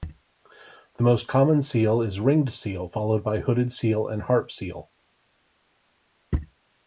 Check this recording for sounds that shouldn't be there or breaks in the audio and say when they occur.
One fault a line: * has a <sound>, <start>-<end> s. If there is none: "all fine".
all fine